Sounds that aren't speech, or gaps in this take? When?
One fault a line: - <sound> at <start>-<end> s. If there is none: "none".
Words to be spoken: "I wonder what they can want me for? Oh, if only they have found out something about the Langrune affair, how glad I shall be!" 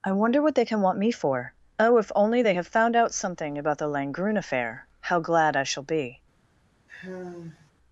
- sigh at 6.9-7.7 s